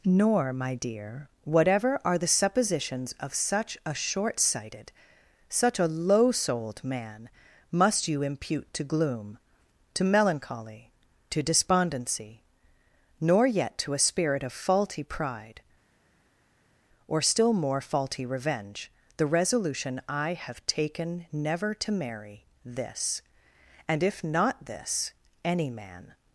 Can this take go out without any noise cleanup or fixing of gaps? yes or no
yes